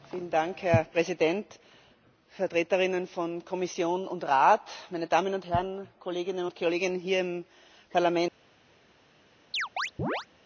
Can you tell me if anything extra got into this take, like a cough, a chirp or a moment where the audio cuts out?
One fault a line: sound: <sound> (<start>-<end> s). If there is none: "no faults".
sound: chirp (9.5-10.3 s)